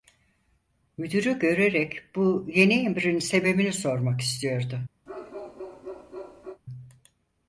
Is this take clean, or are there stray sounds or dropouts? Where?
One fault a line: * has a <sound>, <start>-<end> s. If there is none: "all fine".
* has a bark, 5.1-6.6 s